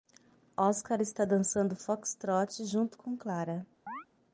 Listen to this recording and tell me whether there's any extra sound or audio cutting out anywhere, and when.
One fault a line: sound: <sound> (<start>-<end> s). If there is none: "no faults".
sound: chirp (3.9-4.1 s)